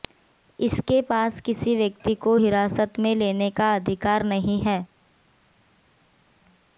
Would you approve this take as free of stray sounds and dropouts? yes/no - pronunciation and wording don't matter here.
yes